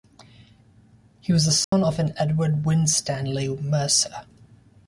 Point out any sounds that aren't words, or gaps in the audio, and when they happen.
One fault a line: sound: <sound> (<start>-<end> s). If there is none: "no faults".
sound: dropout (1.6-1.7 s)